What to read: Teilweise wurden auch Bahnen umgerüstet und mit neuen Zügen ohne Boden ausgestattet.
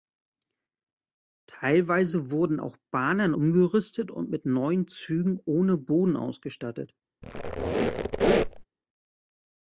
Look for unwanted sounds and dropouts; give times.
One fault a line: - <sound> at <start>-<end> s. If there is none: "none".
- squeak at 7.2-8.6 s